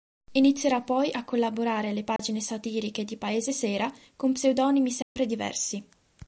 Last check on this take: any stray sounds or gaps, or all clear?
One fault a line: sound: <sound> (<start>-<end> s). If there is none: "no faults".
sound: dropout (2.2-2.2 s)
sound: dropout (5.0-5.2 s)